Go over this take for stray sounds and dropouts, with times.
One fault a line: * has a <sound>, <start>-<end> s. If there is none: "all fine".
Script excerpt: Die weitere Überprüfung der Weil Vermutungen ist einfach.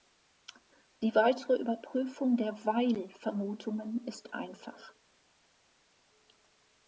all fine